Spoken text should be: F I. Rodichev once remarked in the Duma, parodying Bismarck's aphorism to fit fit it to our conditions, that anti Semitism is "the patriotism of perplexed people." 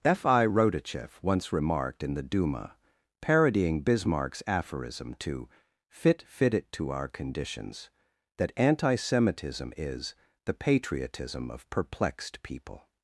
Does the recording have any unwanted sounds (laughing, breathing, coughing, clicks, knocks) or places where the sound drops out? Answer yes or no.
no